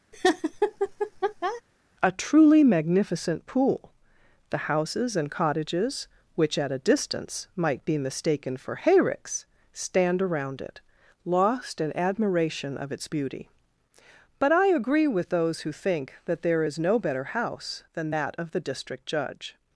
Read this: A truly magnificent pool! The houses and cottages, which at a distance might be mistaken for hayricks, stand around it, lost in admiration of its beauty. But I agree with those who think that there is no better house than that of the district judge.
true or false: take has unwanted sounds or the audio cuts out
true